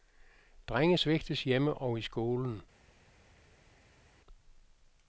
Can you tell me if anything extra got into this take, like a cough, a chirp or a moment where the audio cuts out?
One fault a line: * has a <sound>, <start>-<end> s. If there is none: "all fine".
all fine